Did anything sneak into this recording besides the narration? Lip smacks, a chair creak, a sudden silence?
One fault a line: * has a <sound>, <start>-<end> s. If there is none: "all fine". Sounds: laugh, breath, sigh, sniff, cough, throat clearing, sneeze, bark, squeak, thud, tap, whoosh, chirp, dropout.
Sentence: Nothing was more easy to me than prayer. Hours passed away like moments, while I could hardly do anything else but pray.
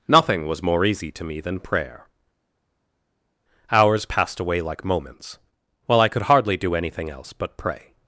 all fine